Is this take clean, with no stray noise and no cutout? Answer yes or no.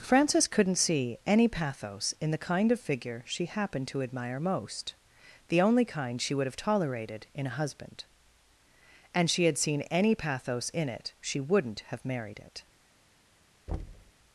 no